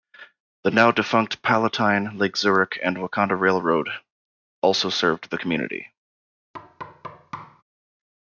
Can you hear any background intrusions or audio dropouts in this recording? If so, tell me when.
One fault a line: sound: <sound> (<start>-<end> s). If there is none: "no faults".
sound: thud (6.5-7.6 s)